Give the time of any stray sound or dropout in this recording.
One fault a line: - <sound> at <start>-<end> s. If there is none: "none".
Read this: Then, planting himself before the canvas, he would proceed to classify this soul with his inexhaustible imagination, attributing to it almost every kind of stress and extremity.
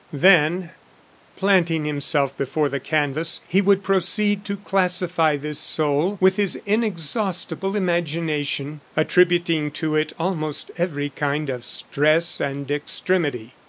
none